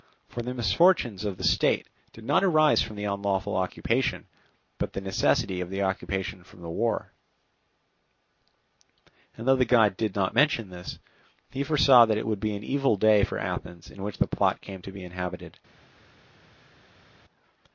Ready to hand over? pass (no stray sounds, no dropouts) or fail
pass